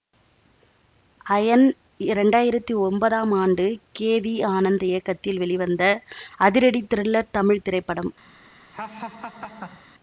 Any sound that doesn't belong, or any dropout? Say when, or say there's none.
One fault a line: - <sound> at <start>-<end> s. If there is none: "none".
- laugh at 8.7-9.9 s